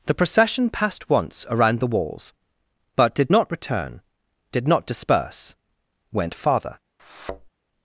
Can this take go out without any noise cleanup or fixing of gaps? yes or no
no